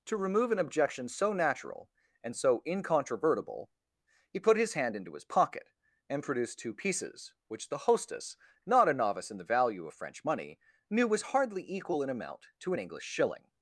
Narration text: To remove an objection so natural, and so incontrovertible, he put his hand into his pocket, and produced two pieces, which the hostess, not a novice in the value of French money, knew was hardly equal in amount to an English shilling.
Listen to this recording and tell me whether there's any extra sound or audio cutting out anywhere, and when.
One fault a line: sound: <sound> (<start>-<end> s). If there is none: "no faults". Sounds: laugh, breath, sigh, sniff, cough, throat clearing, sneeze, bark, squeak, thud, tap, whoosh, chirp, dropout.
no faults